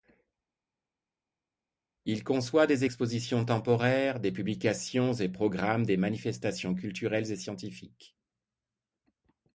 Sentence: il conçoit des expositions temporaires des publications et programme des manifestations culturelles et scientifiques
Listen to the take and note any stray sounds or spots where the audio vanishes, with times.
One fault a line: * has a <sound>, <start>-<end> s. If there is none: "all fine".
all fine